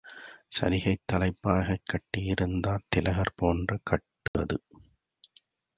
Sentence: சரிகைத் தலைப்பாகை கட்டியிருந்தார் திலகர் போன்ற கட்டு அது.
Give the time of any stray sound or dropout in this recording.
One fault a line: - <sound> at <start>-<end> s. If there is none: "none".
- dropout at 4.3-4.3 s